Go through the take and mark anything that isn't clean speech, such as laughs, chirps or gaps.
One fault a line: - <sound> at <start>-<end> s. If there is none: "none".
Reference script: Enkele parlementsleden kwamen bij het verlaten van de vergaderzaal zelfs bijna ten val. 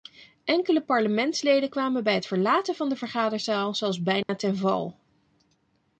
- dropout at 4.2-4.3 s